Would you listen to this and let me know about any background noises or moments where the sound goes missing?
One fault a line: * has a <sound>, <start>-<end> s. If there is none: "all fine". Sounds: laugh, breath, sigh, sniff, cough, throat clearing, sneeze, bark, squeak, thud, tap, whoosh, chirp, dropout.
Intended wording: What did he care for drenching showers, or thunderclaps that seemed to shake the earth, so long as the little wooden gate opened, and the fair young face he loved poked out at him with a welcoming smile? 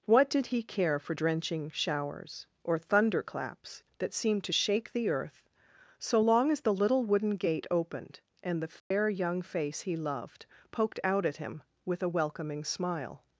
* has a dropout, 8.8-8.9 s